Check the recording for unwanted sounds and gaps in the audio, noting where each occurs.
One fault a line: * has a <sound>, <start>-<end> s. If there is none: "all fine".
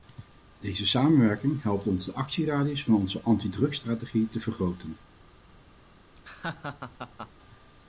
* has a laugh, 6.1-7.3 s